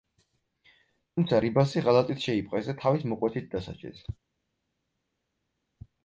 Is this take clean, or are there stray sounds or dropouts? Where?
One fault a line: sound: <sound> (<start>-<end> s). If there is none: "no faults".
no faults